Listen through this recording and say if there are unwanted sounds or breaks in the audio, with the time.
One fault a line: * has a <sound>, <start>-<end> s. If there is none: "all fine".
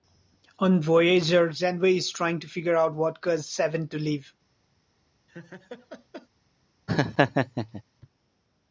* has a laugh, 5.3-6.3 s
* has a laugh, 6.9-7.8 s